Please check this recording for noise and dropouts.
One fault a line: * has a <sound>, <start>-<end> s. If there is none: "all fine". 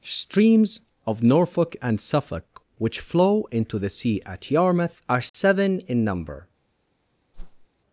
* has a dropout, 5.3-5.3 s
* has a whoosh, 7.3-7.7 s